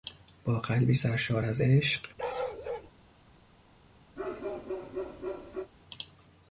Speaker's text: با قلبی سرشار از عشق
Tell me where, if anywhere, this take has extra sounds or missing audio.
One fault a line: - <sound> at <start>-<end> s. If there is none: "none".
- bark at 2.2-2.9 s
- bark at 4.2-5.7 s